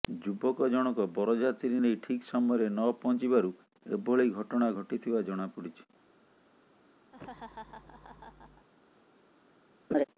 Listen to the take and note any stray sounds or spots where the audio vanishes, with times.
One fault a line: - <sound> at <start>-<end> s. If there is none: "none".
- laugh at 7.1-8.7 s
- laugh at 9.9-10.0 s